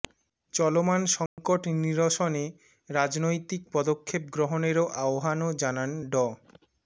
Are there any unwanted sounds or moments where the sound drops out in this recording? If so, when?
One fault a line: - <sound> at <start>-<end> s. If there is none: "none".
- dropout at 1.3-1.4 s